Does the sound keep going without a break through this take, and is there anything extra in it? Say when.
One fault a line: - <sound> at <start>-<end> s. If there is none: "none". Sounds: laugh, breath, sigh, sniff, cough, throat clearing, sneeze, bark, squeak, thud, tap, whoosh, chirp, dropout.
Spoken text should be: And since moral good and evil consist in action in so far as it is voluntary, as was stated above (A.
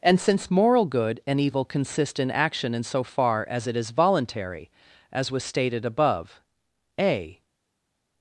none